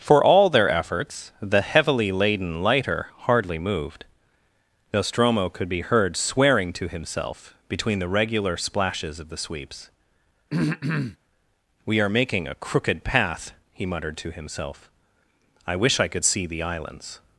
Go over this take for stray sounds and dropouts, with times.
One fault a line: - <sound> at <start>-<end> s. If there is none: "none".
- throat clearing at 10.5-11.2 s